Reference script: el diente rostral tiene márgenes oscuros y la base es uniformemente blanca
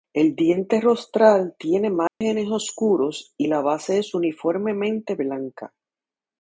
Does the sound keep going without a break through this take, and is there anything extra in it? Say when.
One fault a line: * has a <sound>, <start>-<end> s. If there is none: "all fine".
* has a dropout, 2.1-2.2 s